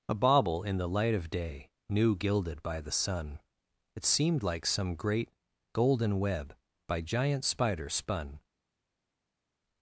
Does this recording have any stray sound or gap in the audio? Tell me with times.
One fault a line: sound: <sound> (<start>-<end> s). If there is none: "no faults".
no faults